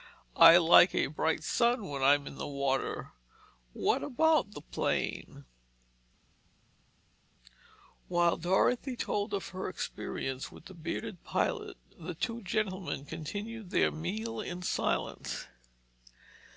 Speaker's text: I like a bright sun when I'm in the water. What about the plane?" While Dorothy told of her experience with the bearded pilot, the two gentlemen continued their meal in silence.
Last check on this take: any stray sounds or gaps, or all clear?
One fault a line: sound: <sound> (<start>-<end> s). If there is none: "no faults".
no faults